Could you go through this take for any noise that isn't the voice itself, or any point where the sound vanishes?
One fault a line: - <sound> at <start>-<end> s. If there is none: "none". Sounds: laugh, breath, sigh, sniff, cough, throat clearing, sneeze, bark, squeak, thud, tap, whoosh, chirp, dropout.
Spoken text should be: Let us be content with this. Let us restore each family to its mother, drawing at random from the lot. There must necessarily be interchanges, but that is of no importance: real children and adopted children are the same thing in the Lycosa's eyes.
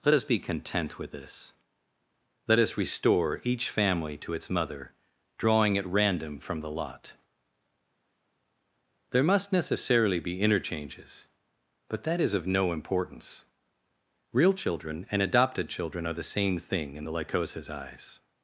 none